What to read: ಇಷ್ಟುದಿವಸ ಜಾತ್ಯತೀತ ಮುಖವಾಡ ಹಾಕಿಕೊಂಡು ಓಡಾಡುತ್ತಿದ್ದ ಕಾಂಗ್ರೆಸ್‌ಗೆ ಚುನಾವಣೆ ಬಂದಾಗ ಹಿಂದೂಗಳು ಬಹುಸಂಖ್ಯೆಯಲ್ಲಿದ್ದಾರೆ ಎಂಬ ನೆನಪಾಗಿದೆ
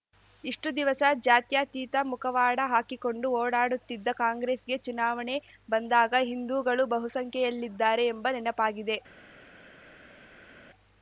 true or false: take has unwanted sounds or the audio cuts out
false